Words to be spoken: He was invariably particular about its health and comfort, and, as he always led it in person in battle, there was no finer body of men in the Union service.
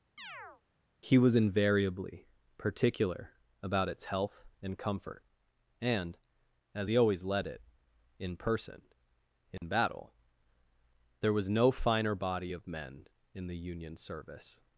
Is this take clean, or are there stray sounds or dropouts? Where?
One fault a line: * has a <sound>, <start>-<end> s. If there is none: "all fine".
* has a chirp, 0.2-0.6 s
* has a dropout, 9.6-9.6 s